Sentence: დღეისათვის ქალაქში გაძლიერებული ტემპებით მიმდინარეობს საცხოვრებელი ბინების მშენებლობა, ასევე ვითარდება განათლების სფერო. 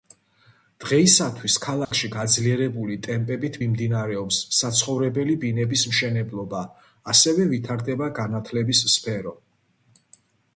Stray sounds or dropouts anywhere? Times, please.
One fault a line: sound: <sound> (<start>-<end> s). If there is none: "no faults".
sound: dropout (1.9-1.9 s)